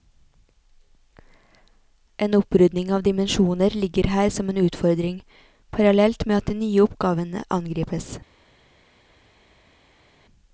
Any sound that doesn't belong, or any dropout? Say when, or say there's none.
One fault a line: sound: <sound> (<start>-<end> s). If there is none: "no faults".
no faults